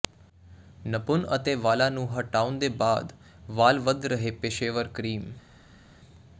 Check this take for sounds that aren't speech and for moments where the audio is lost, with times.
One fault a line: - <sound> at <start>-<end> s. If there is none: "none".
none